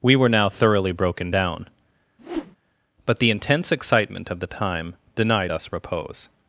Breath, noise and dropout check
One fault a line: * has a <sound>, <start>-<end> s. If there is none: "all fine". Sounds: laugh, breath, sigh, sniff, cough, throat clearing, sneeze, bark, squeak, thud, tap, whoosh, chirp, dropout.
* has a whoosh, 2.2-2.6 s